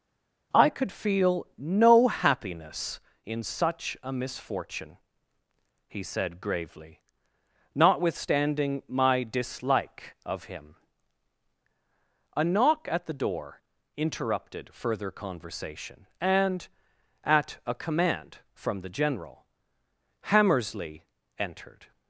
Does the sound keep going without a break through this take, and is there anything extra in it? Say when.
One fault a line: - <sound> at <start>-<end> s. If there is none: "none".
none